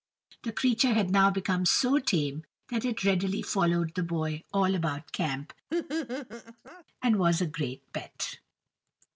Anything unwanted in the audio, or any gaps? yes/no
yes